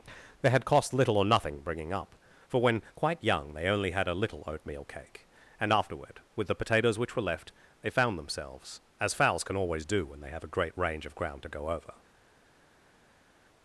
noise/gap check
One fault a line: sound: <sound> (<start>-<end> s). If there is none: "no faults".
no faults